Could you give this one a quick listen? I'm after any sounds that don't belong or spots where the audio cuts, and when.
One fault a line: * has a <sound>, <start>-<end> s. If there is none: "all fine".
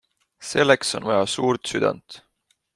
all fine